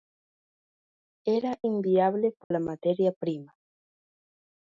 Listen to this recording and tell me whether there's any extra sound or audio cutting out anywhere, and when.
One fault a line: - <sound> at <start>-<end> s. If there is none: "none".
- dropout at 2.4-2.5 s